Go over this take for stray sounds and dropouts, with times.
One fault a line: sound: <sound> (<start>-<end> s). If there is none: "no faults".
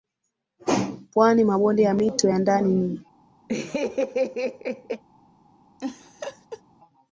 sound: laugh (3.5-5.0 s)
sound: laugh (5.8-6.6 s)